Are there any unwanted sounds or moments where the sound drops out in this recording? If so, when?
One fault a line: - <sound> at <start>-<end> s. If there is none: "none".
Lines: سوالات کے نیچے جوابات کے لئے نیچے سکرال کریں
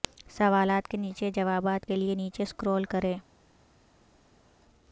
none